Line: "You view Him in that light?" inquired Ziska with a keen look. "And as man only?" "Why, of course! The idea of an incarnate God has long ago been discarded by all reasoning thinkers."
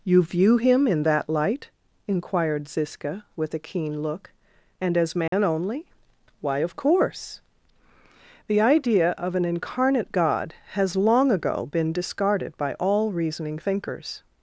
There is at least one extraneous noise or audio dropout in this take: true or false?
true